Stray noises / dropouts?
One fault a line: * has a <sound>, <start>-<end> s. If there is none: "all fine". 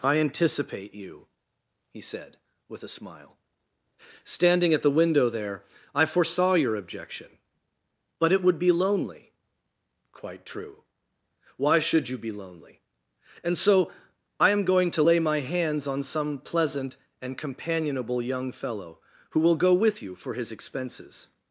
all fine